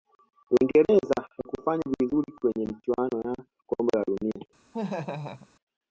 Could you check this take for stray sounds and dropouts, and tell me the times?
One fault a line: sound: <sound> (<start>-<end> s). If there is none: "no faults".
sound: laugh (4.7-5.5 s)